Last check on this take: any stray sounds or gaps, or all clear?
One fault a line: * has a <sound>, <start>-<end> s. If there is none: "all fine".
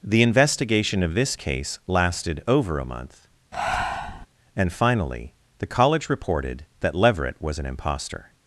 * has a breath, 3.5-4.3 s